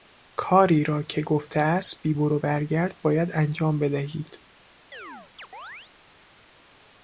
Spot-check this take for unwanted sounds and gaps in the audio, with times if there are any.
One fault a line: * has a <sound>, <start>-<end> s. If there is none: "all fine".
* has a chirp, 4.9-5.9 s